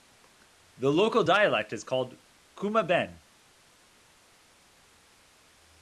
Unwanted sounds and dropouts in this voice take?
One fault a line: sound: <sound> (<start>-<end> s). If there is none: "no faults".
no faults